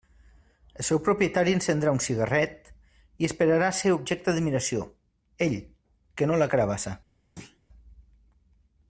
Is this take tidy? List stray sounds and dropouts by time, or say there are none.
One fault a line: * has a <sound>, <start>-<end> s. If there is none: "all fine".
* has a thud, 7.4-7.6 s